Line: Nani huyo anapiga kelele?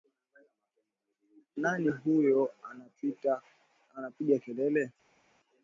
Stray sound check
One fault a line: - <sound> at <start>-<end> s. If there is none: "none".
none